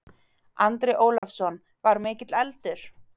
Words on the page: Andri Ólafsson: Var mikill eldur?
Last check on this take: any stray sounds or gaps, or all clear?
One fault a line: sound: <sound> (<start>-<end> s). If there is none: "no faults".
sound: dropout (1.2-1.2 s)